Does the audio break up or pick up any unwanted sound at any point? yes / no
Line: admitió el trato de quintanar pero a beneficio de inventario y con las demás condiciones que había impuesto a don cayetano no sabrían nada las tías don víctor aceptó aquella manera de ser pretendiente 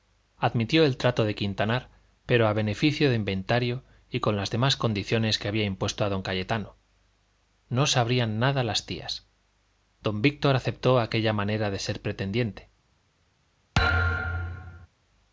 yes